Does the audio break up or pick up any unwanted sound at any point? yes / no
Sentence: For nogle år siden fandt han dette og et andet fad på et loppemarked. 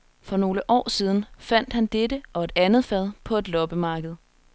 no